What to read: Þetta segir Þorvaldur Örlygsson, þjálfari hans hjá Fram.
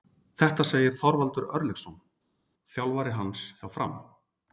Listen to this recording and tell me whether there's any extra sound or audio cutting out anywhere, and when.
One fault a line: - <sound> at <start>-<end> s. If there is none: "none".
none